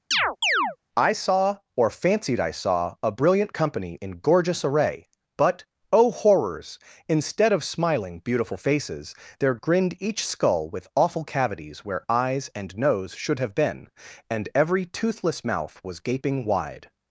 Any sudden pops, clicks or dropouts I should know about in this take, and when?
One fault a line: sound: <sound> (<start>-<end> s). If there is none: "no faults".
sound: chirp (0.1-0.8 s)